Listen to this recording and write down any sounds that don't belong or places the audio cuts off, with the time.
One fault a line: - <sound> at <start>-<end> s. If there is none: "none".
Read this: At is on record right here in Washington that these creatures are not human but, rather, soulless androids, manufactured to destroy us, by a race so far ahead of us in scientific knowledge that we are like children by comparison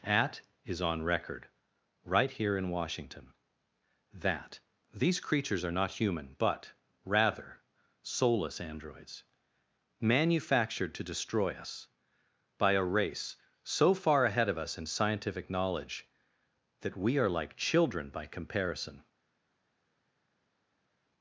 none